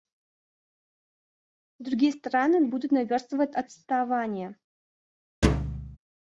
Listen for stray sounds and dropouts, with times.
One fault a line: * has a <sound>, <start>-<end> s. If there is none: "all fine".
* has a thud, 5.4-6.0 s